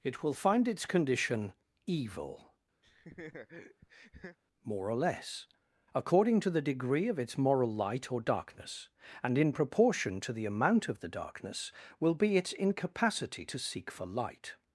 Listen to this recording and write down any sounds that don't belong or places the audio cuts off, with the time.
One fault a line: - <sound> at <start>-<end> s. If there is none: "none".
- laugh at 2.8-4.4 s